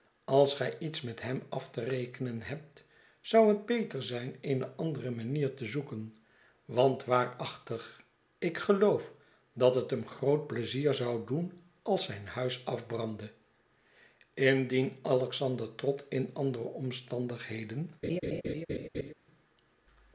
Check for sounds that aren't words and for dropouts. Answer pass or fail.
fail